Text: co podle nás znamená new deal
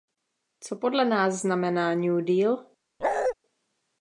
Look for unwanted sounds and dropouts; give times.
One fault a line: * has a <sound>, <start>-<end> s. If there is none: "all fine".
* has a bark, 3.0-3.3 s